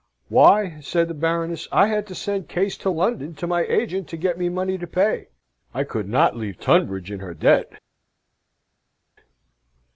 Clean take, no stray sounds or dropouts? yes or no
yes